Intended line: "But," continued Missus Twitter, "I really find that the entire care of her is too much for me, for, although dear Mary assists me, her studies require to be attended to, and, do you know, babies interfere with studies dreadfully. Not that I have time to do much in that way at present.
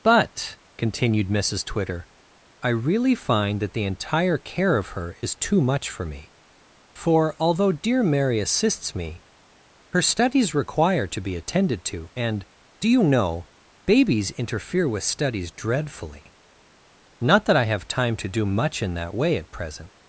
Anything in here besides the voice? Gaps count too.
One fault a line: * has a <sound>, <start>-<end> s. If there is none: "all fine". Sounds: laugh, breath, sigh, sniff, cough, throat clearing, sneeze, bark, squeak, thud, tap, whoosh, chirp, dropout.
all fine